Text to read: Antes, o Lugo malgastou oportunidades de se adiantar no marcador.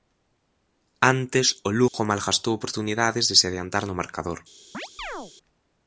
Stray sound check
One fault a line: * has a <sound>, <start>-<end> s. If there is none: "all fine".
* has a dropout, 1.9-1.9 s
* has a chirp, 4.7-5.3 s